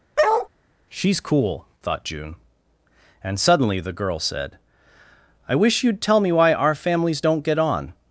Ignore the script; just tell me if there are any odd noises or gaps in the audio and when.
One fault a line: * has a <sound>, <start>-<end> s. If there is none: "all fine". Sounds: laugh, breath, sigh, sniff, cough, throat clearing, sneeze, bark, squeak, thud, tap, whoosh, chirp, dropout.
* has a bark, 0.2-0.5 s